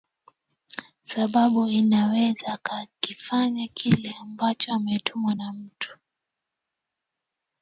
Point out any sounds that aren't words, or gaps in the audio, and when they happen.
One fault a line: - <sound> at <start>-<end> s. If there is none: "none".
none